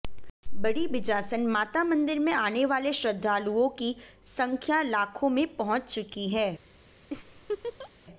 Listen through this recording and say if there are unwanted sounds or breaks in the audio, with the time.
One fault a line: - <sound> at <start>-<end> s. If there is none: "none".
- laugh at 7.1-7.9 s